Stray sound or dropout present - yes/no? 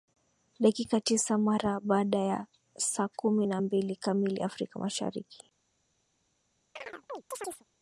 yes